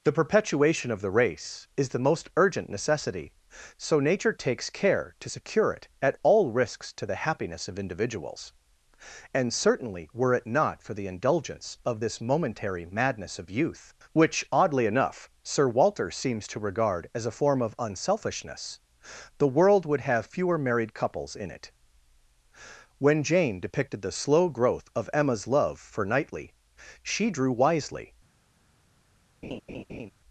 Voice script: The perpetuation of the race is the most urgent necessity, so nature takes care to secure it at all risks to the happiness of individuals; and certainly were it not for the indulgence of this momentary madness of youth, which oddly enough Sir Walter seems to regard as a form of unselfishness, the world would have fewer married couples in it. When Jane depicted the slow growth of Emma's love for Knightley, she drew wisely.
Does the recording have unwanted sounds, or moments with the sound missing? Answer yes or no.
yes